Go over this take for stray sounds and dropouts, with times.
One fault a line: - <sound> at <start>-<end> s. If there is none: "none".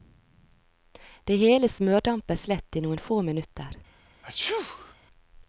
- sneeze at 4.2-5.0 s